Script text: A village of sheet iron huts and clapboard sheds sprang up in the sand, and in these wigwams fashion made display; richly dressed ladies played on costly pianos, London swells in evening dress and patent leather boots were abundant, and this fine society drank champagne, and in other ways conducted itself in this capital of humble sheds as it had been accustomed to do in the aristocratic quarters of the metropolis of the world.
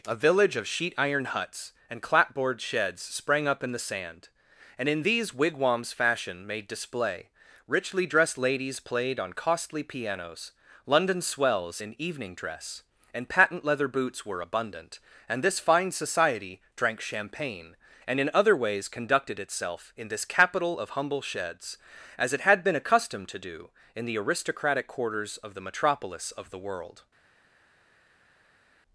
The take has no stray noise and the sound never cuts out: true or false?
true